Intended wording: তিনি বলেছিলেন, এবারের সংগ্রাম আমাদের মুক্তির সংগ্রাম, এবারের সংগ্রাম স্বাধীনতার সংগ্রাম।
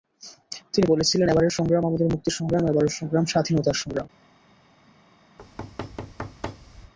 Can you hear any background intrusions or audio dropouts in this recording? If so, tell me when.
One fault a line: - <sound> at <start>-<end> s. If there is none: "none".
- thud at 5.4-6.9 s